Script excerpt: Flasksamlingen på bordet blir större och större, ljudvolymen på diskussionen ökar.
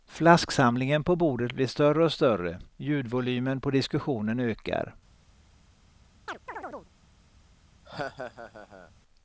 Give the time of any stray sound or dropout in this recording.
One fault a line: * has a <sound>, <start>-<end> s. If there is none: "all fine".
* has a chirp, 6.3-6.9 s
* has a laugh, 7.8-8.9 s